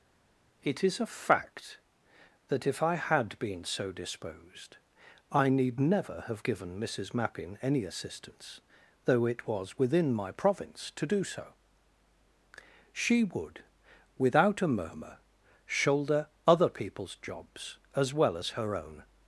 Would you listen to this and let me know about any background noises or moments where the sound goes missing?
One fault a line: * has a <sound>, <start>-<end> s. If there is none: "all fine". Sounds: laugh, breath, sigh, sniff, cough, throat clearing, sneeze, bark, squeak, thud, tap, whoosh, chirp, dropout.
all fine